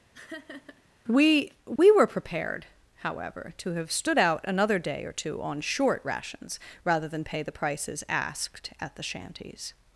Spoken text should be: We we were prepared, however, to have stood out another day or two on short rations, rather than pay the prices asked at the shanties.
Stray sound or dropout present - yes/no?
yes